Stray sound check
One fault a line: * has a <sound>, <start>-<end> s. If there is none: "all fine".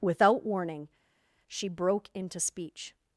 all fine